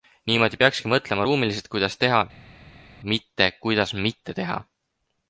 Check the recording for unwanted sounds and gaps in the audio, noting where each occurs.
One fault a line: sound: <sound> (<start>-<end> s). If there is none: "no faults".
no faults